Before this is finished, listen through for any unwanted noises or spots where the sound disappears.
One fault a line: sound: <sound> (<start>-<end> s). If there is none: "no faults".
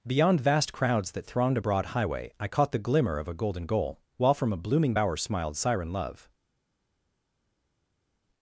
no faults